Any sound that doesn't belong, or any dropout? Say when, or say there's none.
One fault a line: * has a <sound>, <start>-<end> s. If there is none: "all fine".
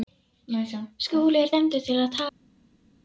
all fine